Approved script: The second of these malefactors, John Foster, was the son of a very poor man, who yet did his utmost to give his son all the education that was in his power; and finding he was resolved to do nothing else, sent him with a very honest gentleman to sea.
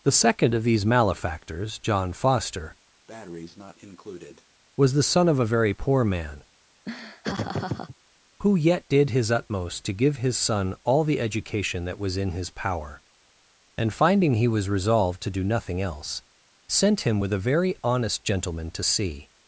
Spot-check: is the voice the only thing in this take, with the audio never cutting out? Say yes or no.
no